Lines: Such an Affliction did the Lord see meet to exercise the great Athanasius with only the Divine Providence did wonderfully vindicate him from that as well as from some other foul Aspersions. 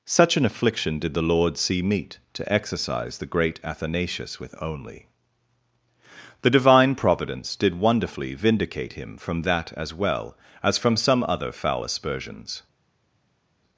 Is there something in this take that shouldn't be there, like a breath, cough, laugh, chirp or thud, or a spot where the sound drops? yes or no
no